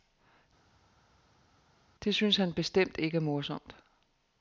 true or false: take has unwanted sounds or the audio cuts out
false